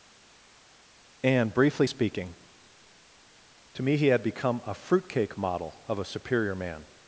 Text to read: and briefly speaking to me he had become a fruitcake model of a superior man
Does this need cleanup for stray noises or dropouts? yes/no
no